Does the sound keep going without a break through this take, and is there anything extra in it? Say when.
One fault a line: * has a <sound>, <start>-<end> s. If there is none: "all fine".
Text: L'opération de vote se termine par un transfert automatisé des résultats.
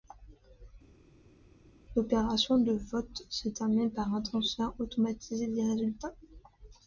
all fine